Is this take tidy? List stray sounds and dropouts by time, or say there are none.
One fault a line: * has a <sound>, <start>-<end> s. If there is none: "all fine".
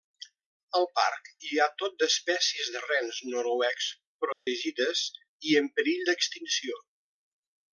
* has a dropout, 4.3-4.5 s